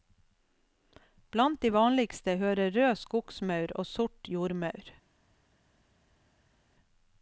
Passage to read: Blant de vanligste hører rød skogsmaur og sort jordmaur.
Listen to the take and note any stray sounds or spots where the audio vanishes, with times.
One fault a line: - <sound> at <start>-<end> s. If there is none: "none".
none